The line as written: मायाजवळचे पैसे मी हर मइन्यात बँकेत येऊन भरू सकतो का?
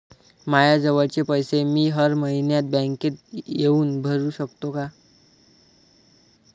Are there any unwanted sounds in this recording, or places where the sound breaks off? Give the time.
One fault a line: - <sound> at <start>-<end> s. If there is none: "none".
none